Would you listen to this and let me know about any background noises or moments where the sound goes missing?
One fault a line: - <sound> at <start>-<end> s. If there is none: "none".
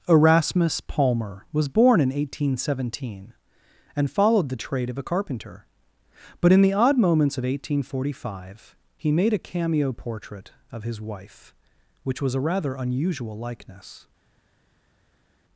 none